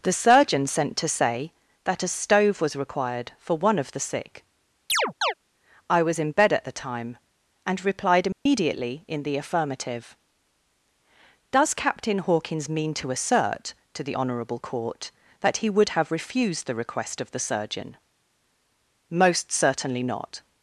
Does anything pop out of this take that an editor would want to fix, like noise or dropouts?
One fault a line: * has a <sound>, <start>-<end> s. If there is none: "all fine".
* has a chirp, 4.9-5.3 s
* has a dropout, 8.3-8.5 s